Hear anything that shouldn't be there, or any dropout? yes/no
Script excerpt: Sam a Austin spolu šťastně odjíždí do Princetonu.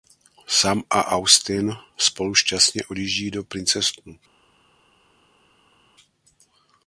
no